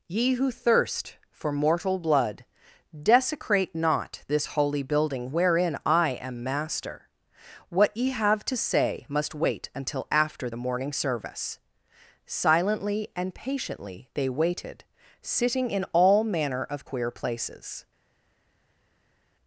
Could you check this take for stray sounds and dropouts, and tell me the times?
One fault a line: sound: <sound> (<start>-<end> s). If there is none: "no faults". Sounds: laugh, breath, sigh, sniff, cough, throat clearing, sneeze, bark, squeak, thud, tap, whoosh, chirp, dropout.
no faults